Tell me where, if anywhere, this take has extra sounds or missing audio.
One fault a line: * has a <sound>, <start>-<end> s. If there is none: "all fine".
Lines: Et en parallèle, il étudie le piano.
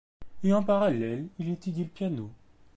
all fine